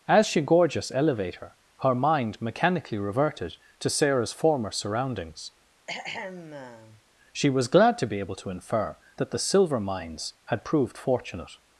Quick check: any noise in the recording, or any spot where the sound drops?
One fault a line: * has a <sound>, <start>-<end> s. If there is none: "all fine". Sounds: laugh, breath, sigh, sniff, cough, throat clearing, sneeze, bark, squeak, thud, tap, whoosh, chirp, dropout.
* has a throat clearing, 5.9-7.0 s